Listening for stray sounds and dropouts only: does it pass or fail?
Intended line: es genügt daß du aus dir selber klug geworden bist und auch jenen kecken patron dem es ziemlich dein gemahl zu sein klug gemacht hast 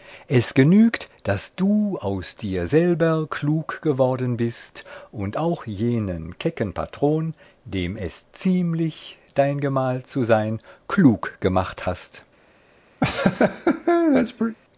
fail